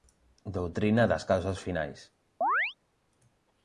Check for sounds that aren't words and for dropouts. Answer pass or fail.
fail